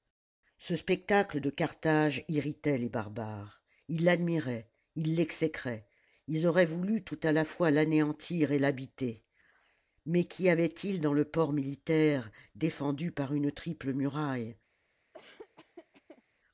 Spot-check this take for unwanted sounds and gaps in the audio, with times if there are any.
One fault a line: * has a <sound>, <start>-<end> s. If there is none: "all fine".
* has a laugh, 15.1-16.2 s